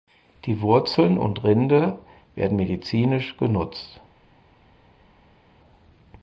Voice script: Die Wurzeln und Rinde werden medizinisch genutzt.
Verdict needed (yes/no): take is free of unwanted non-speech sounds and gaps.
yes